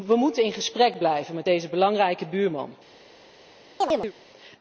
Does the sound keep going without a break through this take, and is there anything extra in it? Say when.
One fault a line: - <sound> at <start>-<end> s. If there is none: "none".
- chirp at 3.8-4.1 s